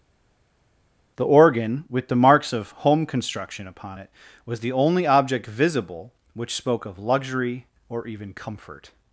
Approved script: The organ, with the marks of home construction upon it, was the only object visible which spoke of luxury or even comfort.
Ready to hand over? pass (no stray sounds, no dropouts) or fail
pass